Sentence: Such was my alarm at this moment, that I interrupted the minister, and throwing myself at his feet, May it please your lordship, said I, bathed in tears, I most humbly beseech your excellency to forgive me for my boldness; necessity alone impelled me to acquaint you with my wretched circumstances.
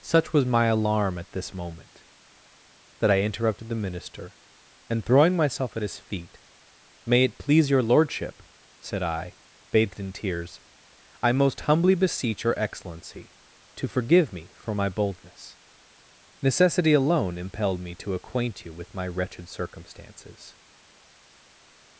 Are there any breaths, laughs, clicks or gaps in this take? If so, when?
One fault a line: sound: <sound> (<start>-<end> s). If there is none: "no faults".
no faults